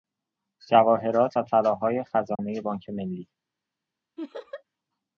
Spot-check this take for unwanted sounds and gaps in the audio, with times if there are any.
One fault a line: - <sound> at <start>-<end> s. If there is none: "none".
- dropout at 2.4-2.4 s
- laugh at 4.2-4.6 s